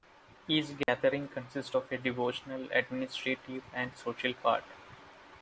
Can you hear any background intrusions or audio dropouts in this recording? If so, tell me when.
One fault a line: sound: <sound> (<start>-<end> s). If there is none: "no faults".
sound: dropout (0.8-0.9 s)